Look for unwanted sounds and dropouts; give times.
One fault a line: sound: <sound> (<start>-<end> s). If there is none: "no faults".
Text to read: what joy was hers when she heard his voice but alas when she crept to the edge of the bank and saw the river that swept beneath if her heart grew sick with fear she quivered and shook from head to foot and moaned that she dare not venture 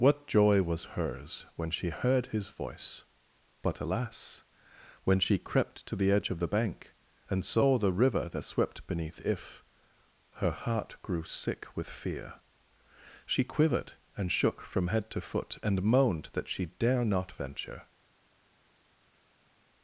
no faults